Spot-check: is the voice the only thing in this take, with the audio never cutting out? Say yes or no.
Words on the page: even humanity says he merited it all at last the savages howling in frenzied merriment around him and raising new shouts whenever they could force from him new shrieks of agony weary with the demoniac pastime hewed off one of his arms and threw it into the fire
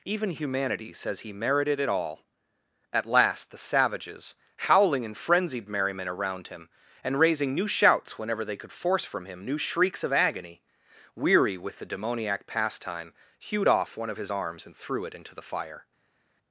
yes